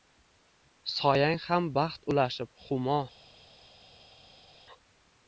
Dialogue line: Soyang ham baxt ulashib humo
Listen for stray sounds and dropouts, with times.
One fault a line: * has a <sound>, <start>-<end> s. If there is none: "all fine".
all fine